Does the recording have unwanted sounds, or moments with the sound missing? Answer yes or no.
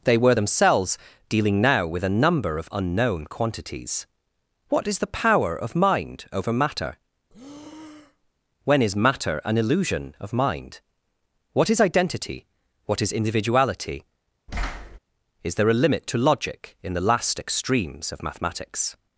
yes